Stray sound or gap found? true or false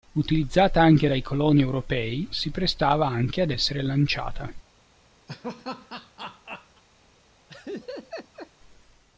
true